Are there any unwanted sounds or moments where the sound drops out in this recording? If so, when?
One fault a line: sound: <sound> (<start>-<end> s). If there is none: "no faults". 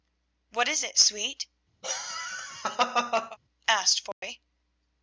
sound: laugh (1.8-3.4 s)
sound: dropout (4.1-4.2 s)